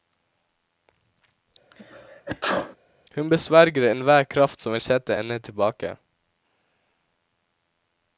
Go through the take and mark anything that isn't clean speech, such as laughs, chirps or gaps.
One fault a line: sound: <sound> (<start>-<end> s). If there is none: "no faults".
sound: sneeze (1.7-2.8 s)